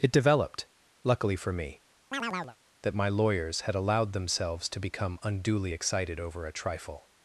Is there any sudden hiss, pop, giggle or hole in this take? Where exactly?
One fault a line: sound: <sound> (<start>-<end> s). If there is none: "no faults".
sound: chirp (2.1-2.6 s)